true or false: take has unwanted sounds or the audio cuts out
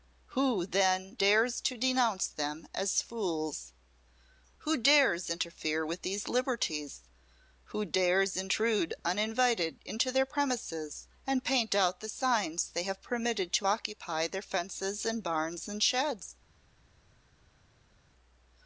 false